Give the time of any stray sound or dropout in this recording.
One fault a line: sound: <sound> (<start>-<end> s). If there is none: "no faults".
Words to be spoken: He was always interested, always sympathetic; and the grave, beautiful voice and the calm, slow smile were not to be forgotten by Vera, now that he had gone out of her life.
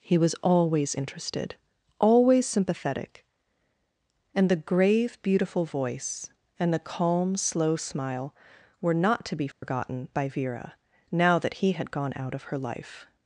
sound: dropout (9.5-9.6 s)